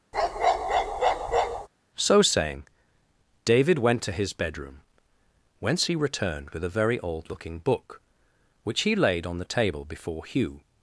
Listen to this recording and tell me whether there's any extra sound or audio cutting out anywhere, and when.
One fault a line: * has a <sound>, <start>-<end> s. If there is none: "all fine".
* has a bark, 0.1-1.7 s